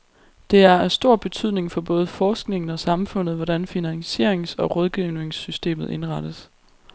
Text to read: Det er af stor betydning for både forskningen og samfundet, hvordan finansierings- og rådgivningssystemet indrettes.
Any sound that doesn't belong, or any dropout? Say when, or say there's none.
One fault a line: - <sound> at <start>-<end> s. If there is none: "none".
none